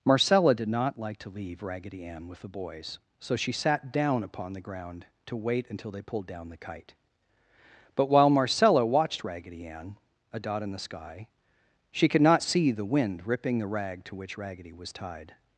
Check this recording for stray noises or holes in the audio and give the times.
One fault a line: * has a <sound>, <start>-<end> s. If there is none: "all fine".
all fine